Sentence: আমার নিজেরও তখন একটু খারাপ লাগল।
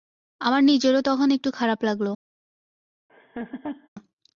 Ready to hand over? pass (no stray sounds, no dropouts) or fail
fail